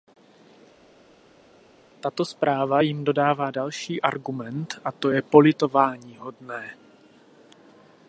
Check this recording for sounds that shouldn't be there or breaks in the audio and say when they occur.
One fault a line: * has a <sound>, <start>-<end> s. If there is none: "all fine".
all fine